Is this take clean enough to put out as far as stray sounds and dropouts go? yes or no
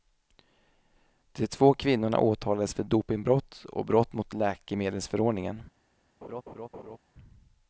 no